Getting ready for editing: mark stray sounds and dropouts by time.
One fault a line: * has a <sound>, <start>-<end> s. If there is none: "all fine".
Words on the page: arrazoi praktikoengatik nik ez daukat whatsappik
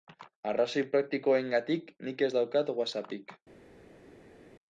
all fine